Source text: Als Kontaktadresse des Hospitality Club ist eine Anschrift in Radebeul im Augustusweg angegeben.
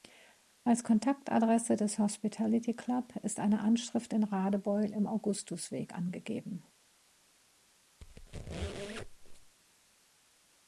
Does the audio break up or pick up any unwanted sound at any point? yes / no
yes